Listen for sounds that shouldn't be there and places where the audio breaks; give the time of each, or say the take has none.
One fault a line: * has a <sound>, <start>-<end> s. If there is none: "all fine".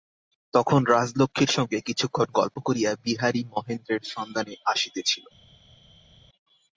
all fine